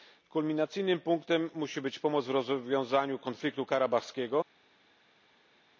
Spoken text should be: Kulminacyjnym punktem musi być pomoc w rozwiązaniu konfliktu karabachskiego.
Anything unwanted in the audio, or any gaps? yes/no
no